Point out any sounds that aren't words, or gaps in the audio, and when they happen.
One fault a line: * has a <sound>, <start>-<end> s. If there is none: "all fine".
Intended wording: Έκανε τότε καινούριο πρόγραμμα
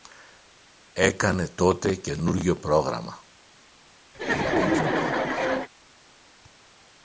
* has a laugh, 4.1-5.7 s